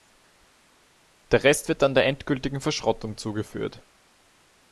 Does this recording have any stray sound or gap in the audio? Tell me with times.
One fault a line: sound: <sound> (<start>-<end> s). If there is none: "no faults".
no faults